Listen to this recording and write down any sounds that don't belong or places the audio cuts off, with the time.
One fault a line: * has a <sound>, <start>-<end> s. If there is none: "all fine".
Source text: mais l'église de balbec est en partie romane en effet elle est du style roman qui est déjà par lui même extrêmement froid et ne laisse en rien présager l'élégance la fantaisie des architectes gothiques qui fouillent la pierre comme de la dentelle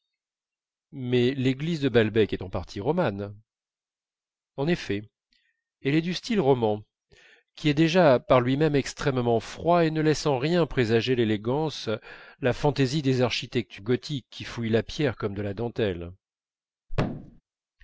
* has a thud, 16.9-17.4 s